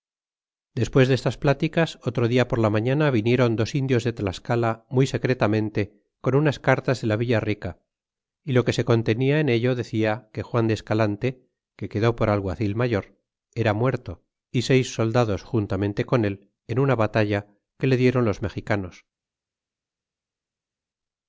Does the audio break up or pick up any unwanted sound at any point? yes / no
no